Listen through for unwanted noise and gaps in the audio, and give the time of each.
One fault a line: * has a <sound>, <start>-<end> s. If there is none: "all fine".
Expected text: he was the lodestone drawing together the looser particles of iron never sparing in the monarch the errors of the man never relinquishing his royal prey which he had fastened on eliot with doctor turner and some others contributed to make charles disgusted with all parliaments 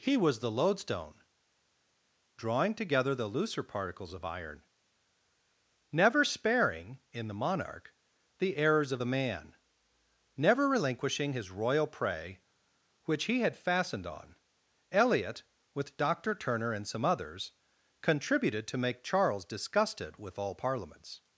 all fine